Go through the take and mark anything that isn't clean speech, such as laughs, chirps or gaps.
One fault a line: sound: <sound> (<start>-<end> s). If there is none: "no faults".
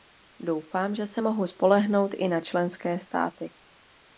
no faults